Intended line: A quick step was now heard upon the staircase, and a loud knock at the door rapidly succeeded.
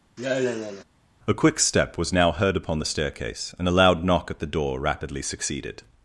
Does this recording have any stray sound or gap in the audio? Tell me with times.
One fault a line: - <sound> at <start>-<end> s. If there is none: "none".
- sigh at 0.2-0.8 s